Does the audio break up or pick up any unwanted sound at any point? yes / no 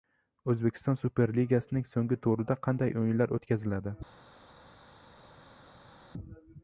no